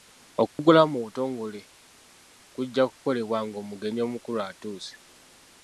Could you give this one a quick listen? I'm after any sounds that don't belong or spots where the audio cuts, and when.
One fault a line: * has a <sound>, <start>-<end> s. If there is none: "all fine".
* has a dropout, 0.5-0.6 s